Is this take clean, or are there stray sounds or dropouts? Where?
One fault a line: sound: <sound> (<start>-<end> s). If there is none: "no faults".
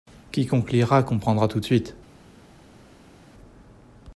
no faults